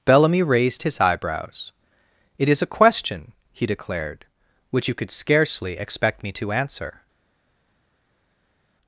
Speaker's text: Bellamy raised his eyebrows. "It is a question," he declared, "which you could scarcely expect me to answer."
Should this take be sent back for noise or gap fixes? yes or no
no